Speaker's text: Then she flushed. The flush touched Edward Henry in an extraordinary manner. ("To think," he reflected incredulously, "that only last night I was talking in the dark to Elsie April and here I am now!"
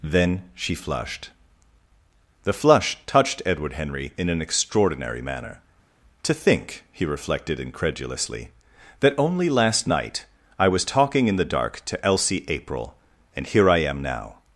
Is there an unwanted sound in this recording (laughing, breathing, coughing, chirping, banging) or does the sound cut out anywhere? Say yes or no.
no